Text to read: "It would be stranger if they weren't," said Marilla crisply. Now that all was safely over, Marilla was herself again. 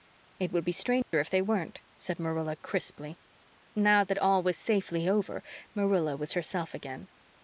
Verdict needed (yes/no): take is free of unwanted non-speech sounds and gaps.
no